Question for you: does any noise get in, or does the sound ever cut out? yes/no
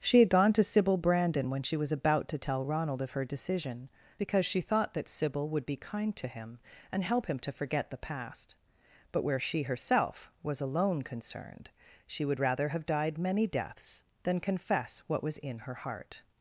no